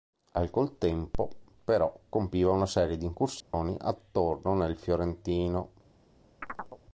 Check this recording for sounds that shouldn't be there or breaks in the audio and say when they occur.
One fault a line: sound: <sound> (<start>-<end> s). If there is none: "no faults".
sound: dropout (3.4-3.5 s)
sound: chirp (6.4-6.8 s)